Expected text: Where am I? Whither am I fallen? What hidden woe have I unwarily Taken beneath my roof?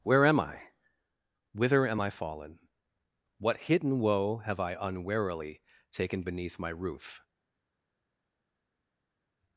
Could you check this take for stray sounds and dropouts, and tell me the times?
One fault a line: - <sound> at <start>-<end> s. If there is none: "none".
none